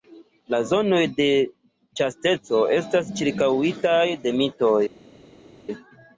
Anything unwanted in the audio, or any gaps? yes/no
no